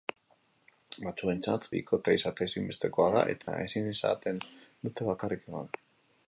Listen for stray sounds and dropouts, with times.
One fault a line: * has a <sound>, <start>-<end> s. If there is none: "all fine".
* has a dropout, 3.4-3.5 s